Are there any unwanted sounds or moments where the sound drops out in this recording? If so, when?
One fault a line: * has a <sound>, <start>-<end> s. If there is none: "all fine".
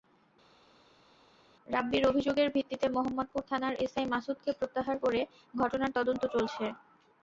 all fine